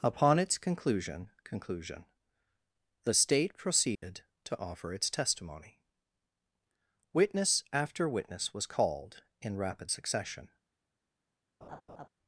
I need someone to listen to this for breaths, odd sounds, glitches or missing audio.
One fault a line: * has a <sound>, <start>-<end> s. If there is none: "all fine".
* has a dropout, 4.0-4.0 s
* has a laugh, 11.6-12.1 s